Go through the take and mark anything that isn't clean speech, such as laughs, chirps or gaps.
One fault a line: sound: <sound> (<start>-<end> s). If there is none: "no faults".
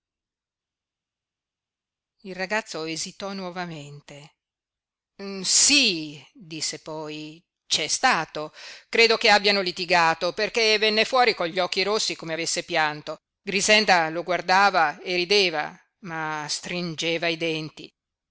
no faults